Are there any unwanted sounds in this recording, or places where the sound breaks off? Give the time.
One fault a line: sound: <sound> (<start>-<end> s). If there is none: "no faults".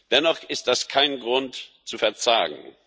no faults